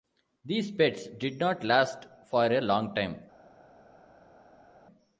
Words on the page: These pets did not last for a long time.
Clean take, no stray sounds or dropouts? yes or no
yes